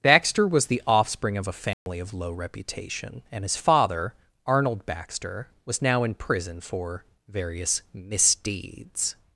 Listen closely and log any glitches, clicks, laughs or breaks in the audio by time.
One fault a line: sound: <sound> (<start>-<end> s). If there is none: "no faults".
sound: dropout (1.7-1.9 s)